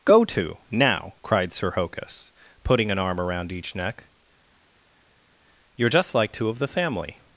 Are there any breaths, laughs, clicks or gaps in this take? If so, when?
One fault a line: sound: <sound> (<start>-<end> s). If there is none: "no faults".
no faults